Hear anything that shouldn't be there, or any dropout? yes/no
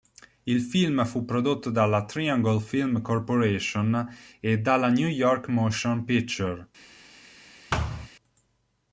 yes